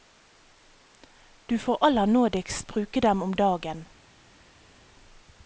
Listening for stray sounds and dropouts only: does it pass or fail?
pass